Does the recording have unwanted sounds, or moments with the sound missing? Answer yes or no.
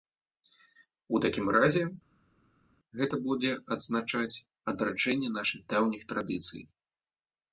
no